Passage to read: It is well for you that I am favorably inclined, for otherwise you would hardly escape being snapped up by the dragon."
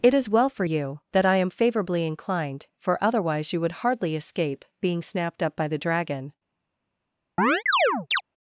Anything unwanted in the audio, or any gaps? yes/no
yes